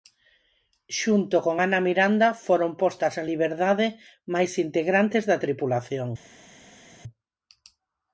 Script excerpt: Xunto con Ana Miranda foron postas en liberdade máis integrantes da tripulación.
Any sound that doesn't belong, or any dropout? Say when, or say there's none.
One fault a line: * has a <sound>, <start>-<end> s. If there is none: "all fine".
all fine